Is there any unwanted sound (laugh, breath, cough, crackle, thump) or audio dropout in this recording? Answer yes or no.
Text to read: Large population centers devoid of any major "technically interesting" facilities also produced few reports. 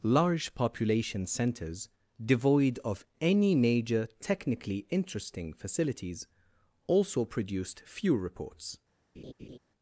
yes